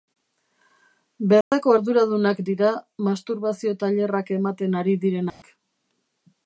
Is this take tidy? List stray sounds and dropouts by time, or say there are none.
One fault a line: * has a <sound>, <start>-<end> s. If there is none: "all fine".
* has a dropout, 1.4-1.5 s
* has a dropout, 5.3-5.4 s